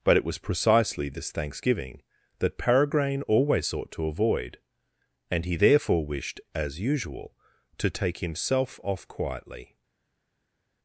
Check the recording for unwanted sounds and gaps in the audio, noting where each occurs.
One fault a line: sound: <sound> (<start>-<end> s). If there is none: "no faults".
no faults